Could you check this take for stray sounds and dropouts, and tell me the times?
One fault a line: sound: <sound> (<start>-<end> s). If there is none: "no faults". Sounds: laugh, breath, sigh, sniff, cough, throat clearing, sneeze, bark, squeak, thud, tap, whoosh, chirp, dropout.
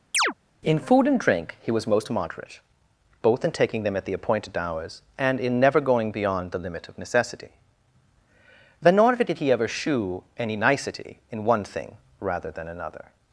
sound: chirp (0.1-0.3 s)